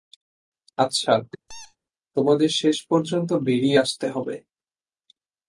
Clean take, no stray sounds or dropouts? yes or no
no